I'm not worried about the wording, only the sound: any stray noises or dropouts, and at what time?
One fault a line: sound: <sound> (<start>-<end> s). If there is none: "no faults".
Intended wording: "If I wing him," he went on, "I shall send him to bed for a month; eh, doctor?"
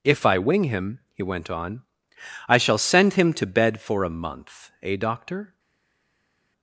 no faults